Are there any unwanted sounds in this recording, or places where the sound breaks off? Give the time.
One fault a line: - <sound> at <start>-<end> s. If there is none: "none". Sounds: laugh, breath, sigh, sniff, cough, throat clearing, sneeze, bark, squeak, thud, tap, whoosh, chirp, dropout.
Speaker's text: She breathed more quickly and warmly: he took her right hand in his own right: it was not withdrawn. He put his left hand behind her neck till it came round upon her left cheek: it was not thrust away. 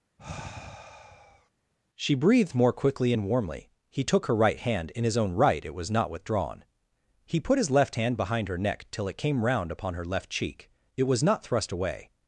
- sigh at 0.2-1.5 s